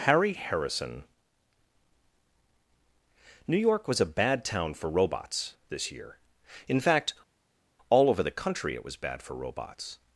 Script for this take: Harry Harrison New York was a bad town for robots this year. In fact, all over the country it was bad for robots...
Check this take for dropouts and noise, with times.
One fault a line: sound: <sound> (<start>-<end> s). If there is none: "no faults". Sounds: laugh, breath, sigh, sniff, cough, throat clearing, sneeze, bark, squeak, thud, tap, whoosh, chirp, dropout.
no faults